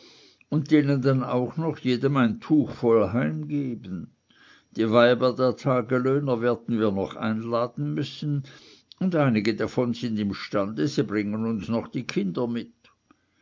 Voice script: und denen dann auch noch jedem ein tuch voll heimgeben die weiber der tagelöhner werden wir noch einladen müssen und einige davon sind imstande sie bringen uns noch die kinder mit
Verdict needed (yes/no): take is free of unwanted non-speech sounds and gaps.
yes